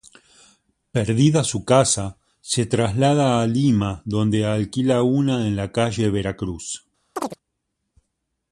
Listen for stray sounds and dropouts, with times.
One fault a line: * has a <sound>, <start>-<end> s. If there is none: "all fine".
* has a chirp, 7.2-7.4 s